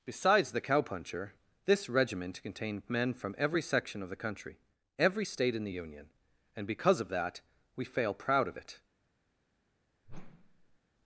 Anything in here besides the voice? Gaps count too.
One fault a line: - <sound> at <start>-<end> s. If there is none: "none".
- whoosh at 10.0-10.8 s